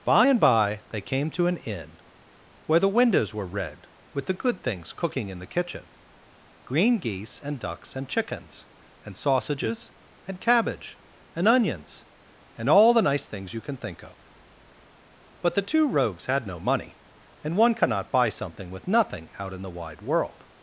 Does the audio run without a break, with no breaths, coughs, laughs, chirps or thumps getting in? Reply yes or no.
yes